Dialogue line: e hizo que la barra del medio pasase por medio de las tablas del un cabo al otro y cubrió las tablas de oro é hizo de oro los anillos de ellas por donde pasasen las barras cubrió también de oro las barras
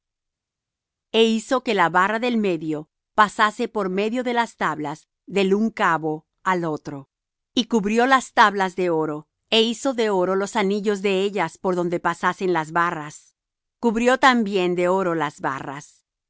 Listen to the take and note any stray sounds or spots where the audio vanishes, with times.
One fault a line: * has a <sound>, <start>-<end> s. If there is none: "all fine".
all fine